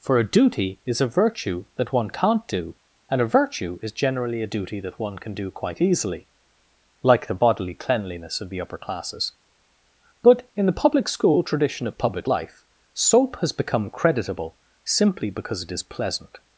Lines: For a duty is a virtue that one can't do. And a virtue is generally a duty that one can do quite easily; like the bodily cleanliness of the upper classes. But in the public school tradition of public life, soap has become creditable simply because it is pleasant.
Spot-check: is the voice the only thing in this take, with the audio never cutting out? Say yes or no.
yes